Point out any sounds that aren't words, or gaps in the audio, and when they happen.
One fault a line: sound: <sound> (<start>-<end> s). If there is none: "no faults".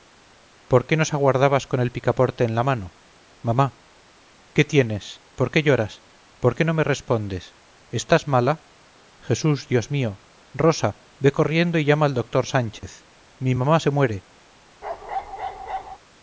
sound: dropout (12.8-12.8 s)
sound: bark (14.8-16.0 s)